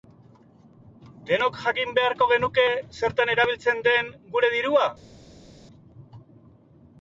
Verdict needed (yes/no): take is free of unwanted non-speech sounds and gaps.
yes